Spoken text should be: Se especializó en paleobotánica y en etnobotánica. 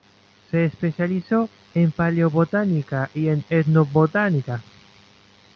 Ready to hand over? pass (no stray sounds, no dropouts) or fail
pass